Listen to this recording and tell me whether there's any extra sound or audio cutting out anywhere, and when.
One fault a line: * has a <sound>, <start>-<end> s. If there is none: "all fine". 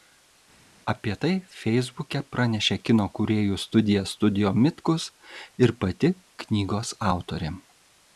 all fine